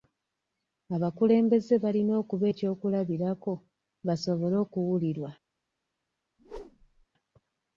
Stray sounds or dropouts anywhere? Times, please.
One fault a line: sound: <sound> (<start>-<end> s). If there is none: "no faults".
sound: whoosh (6.4-7.1 s)